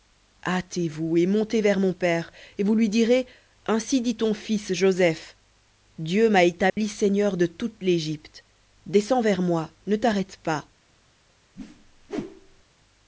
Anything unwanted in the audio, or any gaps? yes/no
yes